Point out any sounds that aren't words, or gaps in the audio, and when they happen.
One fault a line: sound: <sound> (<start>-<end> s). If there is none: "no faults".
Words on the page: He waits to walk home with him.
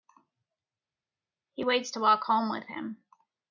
no faults